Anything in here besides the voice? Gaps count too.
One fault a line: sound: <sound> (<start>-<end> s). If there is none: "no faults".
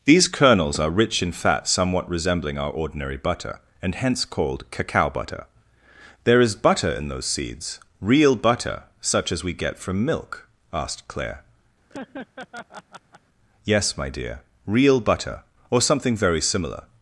sound: laugh (11.9-13.2 s)